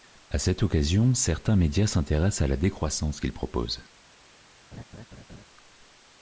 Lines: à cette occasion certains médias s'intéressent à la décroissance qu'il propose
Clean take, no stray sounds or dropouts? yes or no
no